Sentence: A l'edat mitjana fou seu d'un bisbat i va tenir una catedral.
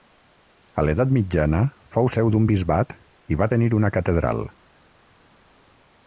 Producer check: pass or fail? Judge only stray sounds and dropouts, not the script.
pass